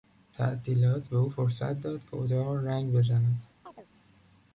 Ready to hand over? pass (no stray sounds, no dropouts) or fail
fail